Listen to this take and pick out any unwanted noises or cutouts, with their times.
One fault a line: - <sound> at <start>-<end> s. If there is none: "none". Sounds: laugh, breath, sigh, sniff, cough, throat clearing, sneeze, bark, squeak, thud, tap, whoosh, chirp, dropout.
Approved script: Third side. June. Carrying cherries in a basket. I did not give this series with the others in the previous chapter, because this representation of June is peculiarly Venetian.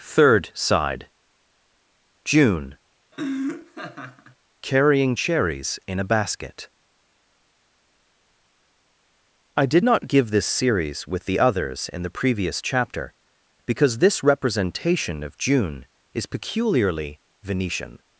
- laugh at 3.1-4.4 s